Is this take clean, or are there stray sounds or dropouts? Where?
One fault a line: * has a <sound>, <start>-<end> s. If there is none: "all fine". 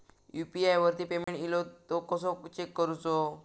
* has a dropout, 1.2-1.3 s